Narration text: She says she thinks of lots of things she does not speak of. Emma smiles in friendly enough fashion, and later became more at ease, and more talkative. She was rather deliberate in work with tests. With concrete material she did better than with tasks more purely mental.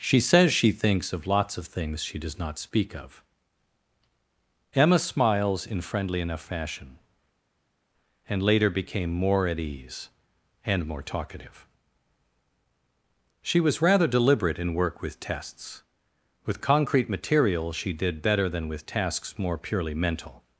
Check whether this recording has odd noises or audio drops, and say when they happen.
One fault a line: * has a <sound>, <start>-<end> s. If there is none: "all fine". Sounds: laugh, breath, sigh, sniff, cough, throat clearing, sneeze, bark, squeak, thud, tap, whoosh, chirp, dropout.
all fine